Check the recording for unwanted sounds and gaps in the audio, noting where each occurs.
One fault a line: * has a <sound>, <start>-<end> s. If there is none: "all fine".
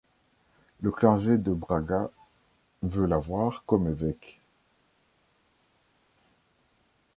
all fine